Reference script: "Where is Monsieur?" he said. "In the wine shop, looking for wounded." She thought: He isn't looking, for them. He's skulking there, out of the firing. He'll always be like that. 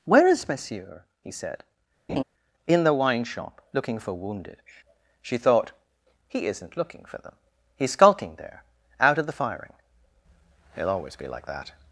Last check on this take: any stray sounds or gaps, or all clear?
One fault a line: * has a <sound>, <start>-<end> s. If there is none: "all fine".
* has a laugh, 2.1-2.2 s